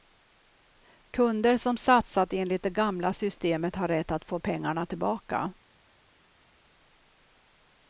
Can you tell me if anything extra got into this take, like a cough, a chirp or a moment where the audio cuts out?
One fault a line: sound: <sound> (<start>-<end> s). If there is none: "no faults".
no faults